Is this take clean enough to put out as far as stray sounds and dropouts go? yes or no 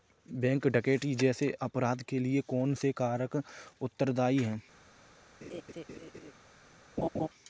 no